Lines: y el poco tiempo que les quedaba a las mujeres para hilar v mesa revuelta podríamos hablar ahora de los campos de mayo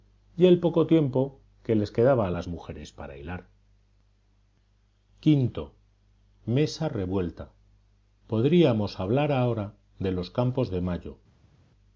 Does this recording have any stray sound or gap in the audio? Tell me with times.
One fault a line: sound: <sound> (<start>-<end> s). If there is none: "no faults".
no faults